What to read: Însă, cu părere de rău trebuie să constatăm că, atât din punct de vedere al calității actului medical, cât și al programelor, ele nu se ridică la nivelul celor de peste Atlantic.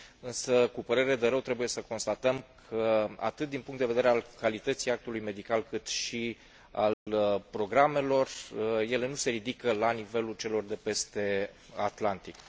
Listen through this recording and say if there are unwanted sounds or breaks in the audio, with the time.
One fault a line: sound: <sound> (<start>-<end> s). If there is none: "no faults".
sound: dropout (6.9-7.1 s)